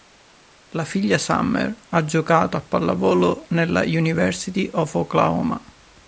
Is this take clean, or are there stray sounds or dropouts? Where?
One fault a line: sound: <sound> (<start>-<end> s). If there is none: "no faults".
no faults